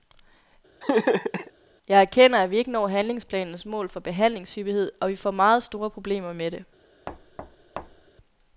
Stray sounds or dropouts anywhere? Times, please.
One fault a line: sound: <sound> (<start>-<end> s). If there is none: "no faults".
sound: laugh (0.8-1.5 s)
sound: thud (7.1-8.1 s)